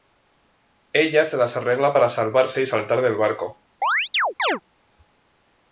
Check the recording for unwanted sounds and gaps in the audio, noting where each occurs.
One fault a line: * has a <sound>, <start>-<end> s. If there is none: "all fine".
* has a chirp, 3.8-4.6 s